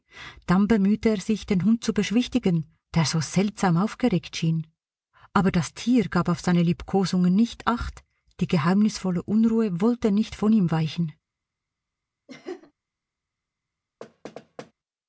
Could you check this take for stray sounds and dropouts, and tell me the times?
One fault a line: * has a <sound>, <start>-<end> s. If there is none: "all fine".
* has a laugh, 12.3-12.7 s
* has a thud, 14.0-14.7 s